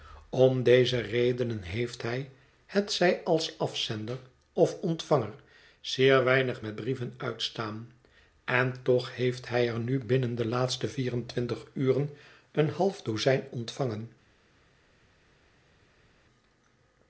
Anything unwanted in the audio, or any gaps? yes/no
no